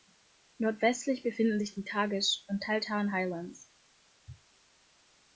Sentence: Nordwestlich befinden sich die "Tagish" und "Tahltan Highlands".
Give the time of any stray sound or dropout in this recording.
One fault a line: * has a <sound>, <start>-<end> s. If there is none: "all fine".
all fine